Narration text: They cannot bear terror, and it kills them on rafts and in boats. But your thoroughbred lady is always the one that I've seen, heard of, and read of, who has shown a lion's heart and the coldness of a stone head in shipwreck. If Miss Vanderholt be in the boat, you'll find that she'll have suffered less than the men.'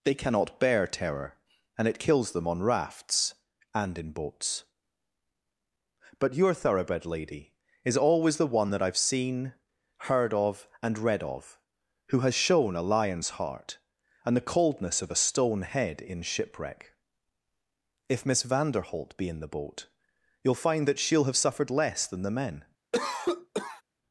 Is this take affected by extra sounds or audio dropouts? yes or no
yes